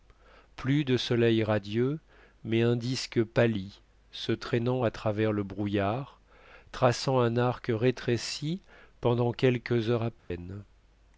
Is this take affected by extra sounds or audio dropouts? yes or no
yes